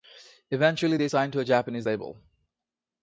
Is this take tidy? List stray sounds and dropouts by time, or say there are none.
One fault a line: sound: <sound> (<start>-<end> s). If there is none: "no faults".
no faults